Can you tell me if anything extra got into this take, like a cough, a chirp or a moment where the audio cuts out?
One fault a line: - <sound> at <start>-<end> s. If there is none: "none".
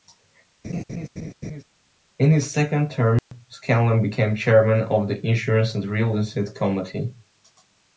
- laugh at 0.6-1.6 s
- dropout at 3.2-3.3 s